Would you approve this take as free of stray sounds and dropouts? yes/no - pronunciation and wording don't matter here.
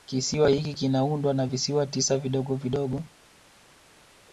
yes